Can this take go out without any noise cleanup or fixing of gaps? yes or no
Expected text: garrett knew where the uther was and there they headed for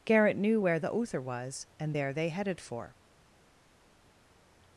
yes